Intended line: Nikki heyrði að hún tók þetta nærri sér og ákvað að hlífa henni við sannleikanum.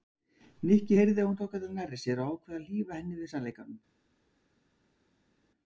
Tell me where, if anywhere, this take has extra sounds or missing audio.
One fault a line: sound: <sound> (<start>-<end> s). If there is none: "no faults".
no faults